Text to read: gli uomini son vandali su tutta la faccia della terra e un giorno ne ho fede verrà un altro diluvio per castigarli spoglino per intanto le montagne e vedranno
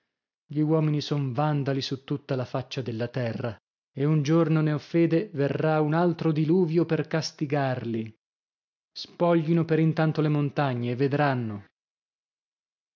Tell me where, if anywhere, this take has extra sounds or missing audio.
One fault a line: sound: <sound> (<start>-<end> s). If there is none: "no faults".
no faults